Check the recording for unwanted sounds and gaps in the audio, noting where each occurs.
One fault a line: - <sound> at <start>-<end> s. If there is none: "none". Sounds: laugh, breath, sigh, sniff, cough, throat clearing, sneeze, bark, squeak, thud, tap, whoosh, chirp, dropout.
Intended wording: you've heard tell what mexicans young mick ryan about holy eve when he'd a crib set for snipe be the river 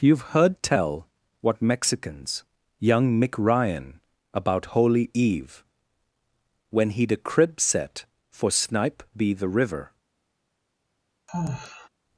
- sigh at 11.3-11.9 s